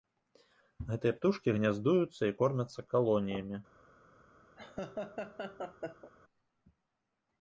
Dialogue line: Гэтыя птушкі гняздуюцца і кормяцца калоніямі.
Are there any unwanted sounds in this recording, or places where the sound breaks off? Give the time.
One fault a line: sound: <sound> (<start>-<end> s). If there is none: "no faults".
sound: laugh (4.6-6.1 s)